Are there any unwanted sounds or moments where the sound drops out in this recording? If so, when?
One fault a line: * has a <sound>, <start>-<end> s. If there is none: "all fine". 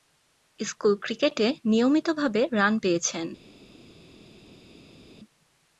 all fine